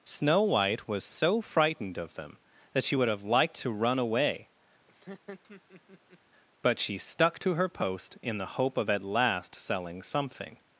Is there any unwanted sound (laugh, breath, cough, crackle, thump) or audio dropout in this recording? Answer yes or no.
yes